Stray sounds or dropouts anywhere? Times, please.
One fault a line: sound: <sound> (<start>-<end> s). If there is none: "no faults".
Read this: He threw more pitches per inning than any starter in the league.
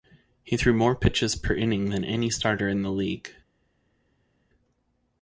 no faults